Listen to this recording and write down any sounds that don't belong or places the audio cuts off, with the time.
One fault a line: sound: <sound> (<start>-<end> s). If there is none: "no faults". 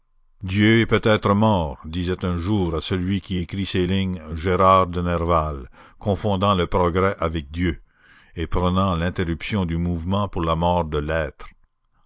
no faults